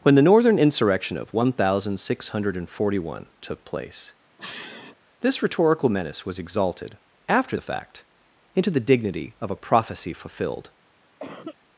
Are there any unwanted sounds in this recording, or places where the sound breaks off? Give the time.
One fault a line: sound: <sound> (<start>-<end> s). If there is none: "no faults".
sound: sniff (4.4-4.9 s)
sound: cough (11.2-11.6 s)